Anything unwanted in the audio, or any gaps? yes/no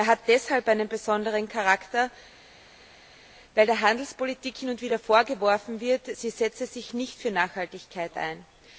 no